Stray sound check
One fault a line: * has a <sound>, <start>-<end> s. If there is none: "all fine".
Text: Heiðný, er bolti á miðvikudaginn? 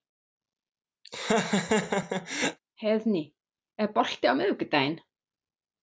* has a laugh, 1.0-2.6 s